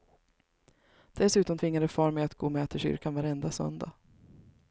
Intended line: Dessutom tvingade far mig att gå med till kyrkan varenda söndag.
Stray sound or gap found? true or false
false